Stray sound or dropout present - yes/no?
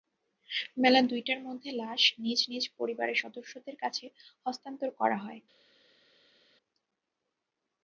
no